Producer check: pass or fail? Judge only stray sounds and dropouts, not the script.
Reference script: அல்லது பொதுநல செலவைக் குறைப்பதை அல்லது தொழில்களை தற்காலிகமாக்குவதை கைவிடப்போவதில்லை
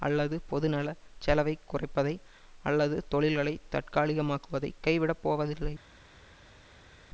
pass